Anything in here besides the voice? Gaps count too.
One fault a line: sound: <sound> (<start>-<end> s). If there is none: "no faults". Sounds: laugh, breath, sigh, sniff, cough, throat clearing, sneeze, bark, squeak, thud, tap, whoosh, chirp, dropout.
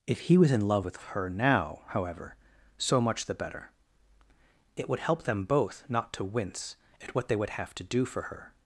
no faults